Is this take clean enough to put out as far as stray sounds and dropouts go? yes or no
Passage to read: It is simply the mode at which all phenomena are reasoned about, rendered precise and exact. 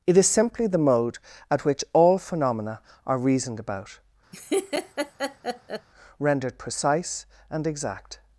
no